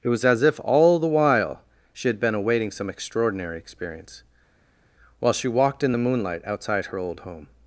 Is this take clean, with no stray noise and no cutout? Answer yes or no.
yes